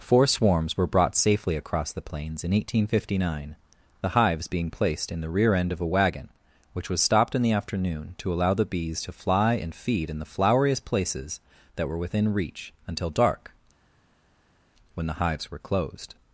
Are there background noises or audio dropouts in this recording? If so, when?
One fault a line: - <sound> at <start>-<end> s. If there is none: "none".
none